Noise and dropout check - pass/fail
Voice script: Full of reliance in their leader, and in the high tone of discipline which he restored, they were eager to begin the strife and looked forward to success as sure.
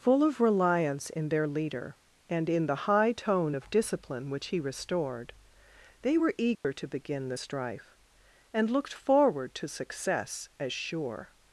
fail